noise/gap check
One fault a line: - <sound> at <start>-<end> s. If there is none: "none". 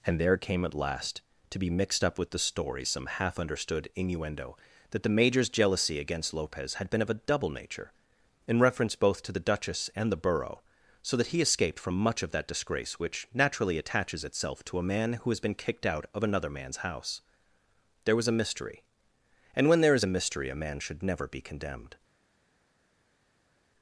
none